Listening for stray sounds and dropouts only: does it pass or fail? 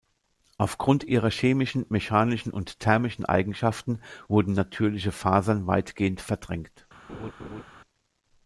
fail